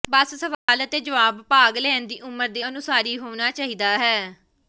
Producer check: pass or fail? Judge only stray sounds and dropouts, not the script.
fail